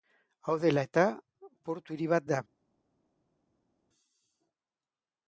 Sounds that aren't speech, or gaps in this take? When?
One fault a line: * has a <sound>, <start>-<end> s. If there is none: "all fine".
all fine